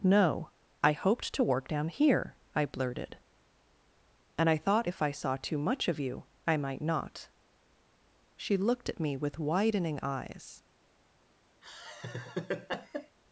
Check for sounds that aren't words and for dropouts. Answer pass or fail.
fail